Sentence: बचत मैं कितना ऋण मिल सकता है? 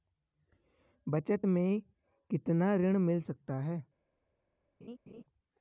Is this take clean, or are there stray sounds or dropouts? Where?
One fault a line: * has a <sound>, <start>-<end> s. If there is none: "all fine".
* has a laugh, 4.8-5.2 s